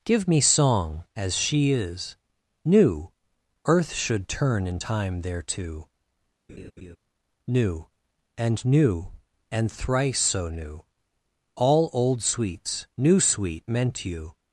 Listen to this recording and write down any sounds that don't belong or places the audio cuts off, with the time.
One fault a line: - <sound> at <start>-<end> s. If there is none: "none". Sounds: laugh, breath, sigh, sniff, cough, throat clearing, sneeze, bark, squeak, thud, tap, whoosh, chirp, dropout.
- laugh at 6.5-7.0 s